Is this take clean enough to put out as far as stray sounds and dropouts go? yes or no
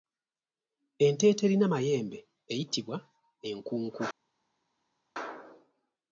yes